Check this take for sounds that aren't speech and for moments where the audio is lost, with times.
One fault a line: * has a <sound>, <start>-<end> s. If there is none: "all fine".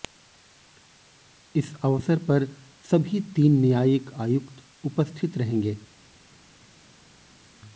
all fine